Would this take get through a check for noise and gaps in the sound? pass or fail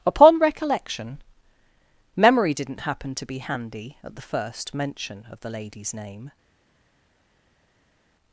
pass